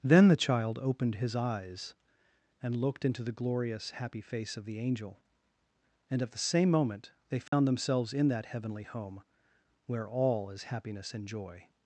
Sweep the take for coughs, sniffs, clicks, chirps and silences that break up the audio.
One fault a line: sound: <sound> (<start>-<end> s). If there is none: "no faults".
sound: dropout (7.5-7.5 s)